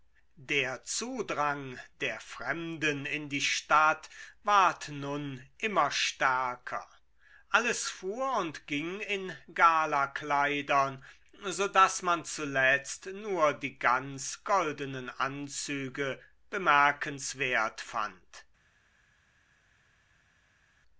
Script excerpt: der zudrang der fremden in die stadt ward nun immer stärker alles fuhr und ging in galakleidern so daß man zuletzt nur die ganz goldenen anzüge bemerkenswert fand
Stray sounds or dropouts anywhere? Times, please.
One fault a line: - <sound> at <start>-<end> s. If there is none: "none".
none